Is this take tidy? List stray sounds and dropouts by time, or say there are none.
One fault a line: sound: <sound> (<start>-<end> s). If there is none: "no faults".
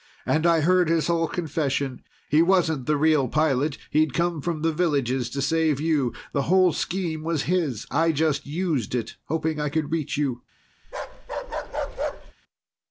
sound: bark (10.8-12.3 s)